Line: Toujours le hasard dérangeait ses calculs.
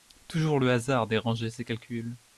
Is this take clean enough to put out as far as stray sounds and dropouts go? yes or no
yes